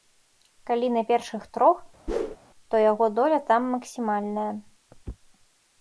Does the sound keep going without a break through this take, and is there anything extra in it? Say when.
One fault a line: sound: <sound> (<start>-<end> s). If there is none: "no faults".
sound: whoosh (2.1-2.4 s)